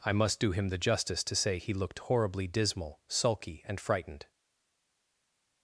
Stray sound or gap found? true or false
false